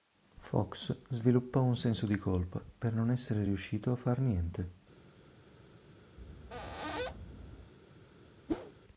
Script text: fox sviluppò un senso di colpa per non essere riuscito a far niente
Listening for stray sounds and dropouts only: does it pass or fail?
fail